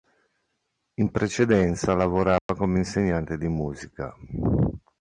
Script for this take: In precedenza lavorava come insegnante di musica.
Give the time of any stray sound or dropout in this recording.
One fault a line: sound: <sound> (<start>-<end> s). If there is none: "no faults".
sound: dropout (2.4-2.5 s)